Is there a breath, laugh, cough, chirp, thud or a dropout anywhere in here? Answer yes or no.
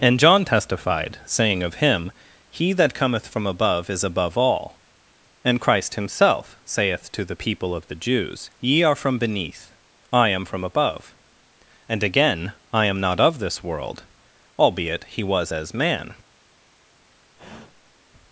yes